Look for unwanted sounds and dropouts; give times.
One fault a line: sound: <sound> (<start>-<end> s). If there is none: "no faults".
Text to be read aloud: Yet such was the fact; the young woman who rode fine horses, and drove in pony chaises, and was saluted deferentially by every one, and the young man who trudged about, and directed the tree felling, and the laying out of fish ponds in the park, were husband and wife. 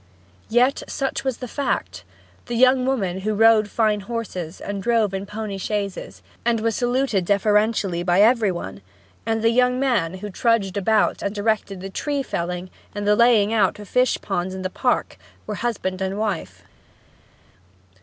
no faults